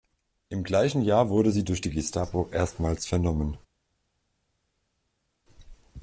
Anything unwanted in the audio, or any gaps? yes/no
no